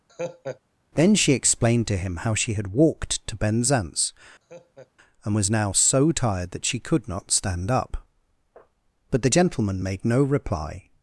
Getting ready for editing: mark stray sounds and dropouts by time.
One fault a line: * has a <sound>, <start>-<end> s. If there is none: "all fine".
* has a laugh, 0.1-0.6 s
* has a laugh, 4.4-4.9 s